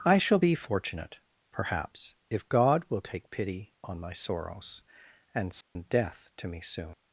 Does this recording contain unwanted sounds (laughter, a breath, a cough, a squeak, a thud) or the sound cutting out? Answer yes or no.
yes